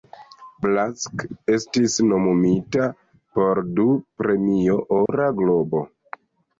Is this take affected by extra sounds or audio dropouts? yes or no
yes